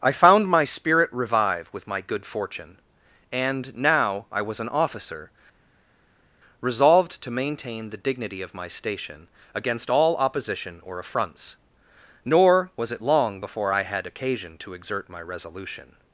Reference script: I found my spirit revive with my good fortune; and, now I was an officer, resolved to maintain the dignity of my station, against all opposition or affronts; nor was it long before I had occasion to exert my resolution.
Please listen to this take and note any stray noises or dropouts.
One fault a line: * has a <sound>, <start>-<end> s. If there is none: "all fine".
all fine